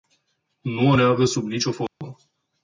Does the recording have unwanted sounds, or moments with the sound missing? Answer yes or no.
yes